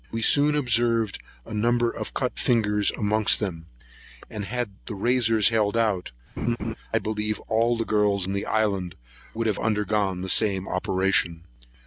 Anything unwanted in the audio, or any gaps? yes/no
yes